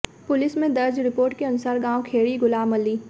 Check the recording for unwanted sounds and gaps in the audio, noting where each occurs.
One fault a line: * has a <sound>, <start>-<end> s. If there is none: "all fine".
all fine